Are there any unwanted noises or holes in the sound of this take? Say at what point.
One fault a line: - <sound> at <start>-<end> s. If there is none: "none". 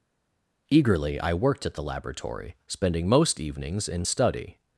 none